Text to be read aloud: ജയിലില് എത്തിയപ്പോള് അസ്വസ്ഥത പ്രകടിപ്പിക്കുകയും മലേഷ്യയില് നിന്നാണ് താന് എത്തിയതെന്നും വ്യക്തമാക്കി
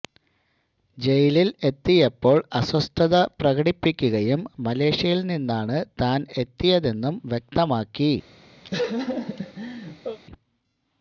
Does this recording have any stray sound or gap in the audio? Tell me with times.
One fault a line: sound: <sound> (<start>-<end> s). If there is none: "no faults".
sound: laugh (8.6-10.2 s)